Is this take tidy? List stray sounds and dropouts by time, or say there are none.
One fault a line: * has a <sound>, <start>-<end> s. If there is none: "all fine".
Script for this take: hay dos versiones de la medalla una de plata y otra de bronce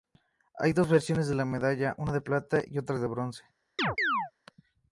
* has a chirp, 3.8-4.3 s